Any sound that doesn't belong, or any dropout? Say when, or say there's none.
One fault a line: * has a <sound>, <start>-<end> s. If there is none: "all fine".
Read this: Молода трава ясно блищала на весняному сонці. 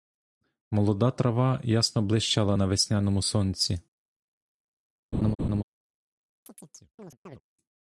* has a laugh, 5.1-5.6 s
* has a chirp, 6.5-7.4 s